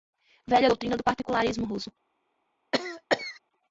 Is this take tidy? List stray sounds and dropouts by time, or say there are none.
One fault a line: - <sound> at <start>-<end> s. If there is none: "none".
- cough at 2.7-3.4 s